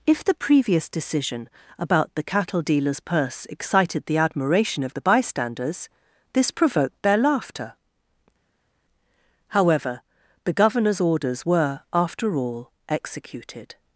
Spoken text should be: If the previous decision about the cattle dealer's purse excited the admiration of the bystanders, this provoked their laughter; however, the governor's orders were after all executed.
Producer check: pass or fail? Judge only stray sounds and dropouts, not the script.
pass